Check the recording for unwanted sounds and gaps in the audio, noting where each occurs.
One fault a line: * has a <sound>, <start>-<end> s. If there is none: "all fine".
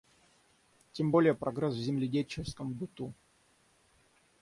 all fine